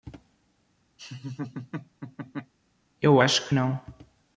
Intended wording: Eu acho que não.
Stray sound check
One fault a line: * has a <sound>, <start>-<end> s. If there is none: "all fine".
* has a laugh, 1.0-2.5 s